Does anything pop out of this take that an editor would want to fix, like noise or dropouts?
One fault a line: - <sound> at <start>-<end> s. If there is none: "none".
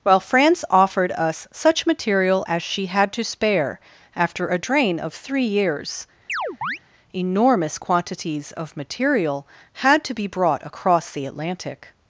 - chirp at 6.3-6.8 s